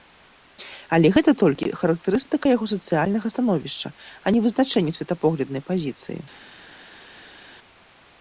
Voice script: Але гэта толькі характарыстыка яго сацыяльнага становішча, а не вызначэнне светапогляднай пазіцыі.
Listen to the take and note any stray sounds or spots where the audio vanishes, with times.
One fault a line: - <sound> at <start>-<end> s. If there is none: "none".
none